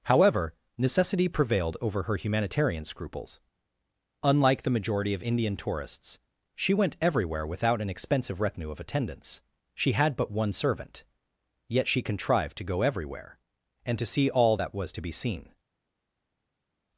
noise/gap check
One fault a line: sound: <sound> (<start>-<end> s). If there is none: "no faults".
no faults